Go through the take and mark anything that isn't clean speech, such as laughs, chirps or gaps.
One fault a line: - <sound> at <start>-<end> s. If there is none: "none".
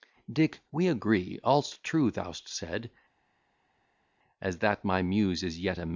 none